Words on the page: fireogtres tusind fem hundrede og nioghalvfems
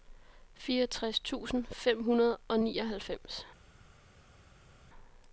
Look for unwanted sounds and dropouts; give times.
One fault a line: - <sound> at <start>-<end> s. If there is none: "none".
none